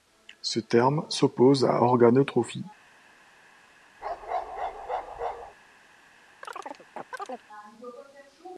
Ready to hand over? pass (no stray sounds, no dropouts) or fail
fail